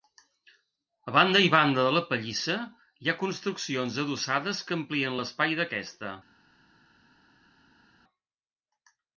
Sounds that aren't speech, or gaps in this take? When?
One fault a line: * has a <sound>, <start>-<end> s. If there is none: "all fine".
all fine